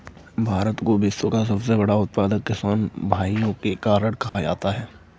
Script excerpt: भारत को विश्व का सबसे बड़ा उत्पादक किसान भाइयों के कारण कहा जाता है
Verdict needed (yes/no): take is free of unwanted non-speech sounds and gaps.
no